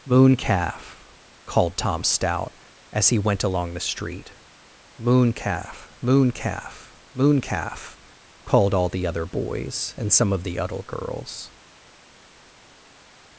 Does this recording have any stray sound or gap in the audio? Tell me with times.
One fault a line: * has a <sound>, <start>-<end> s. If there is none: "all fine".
all fine